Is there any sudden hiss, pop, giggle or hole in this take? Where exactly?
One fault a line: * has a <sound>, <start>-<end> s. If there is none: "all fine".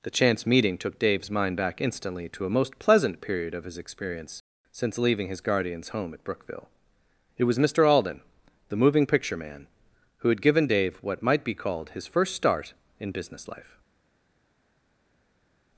all fine